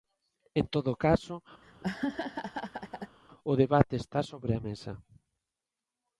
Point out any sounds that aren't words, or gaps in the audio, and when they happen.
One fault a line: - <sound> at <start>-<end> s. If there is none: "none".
- laugh at 1.6-3.2 s